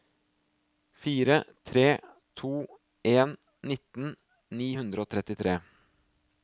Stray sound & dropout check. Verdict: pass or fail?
pass